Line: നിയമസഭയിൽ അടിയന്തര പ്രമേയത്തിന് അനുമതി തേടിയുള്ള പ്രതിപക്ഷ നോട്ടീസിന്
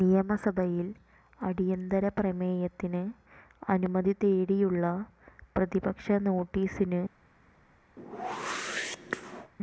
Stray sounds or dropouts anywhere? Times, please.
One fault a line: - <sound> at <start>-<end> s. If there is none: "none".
- whoosh at 8.0-9.5 s